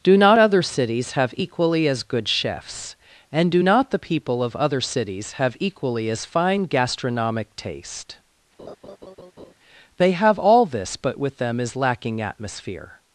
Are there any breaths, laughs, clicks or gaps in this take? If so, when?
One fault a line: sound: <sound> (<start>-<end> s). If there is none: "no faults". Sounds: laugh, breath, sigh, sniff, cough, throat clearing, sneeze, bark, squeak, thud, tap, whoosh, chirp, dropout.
sound: laugh (8.6-9.5 s)